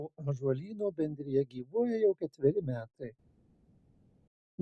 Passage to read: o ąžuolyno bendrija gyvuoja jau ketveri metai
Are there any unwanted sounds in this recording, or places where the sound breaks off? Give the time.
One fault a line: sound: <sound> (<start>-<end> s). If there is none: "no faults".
no faults